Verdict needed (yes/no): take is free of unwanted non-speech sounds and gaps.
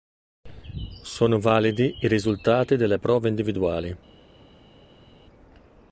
yes